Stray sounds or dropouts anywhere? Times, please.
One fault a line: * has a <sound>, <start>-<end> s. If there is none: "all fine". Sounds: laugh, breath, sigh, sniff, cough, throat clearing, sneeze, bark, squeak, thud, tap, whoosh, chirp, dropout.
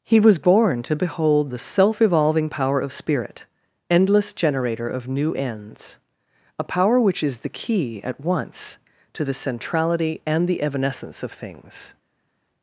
all fine